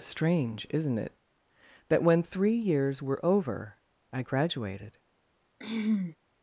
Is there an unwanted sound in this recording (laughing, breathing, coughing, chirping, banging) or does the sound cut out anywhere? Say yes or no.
yes